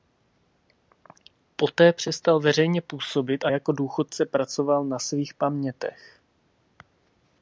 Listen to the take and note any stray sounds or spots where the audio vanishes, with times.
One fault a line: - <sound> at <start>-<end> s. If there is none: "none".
none